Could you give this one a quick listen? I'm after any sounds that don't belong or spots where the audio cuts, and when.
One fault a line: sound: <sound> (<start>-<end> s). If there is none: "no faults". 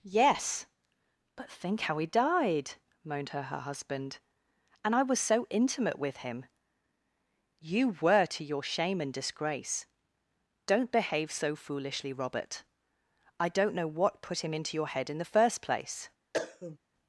sound: cough (16.3-16.8 s)